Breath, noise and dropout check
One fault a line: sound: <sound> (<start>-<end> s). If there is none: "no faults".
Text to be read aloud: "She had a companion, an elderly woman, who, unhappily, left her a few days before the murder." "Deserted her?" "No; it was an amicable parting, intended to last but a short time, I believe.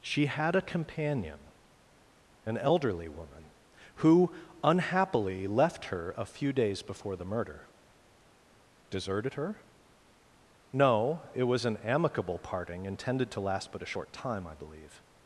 no faults